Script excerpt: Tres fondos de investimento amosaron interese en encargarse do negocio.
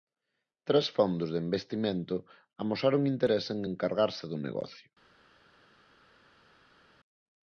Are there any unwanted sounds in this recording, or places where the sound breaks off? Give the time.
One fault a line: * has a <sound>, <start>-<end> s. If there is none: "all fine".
all fine